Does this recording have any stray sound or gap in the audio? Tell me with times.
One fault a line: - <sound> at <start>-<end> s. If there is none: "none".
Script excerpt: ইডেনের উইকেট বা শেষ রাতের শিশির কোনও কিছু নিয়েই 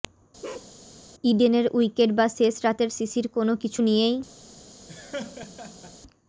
- bark at 0.4-0.7 s
- laugh at 4.9-6.0 s